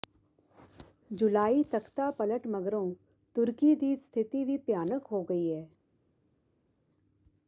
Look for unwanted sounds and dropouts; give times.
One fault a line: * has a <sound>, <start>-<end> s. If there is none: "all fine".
all fine